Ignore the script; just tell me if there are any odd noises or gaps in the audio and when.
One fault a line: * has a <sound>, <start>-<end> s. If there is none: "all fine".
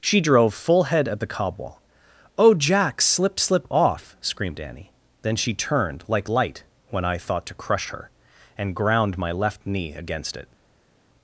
all fine